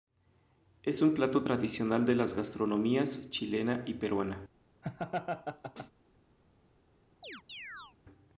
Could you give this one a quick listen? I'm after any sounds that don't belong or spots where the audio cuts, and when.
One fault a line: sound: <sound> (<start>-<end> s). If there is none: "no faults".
sound: laugh (4.8-5.9 s)
sound: chirp (7.2-8.0 s)